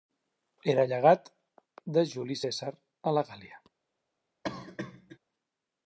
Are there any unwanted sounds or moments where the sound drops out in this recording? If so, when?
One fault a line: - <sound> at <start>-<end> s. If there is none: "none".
- cough at 4.4-5.2 s